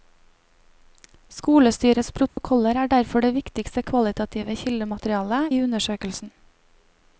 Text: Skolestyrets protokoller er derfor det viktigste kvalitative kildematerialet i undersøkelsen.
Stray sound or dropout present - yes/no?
yes